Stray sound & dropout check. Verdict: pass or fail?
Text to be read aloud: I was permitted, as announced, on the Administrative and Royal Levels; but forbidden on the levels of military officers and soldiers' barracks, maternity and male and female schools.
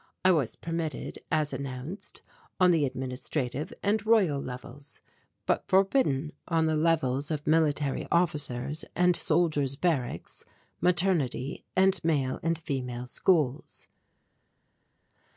pass